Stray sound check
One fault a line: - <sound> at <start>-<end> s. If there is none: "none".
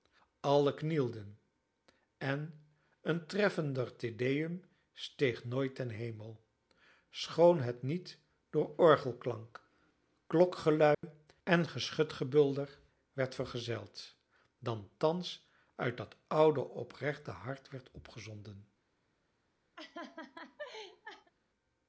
- dropout at 10.9-11.0 s
- laugh at 19.8-21.3 s